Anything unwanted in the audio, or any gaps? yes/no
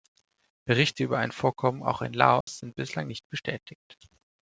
yes